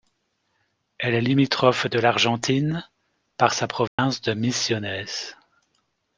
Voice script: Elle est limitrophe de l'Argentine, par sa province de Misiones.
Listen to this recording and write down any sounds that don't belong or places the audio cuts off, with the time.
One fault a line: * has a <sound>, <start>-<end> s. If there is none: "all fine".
* has a dropout, 3.9-4.0 s